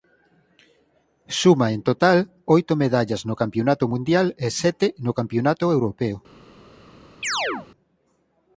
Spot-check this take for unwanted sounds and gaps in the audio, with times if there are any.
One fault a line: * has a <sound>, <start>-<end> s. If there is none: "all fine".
* has a chirp, 7.2-7.7 s